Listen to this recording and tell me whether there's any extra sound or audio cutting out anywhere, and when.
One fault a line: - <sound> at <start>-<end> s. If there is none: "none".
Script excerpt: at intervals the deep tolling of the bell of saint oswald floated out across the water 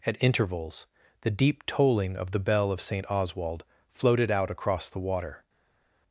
none